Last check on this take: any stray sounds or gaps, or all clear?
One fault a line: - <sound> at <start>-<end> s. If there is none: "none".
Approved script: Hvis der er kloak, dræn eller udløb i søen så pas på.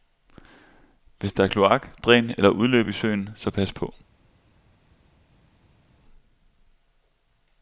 none